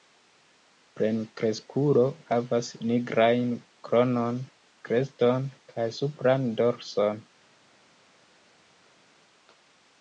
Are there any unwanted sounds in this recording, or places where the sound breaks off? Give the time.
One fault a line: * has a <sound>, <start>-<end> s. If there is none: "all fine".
all fine